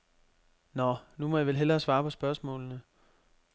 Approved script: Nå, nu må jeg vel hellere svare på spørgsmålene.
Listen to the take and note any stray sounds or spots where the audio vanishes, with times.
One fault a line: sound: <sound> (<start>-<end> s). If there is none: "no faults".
no faults